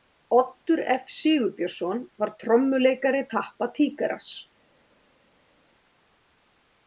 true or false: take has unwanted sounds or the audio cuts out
false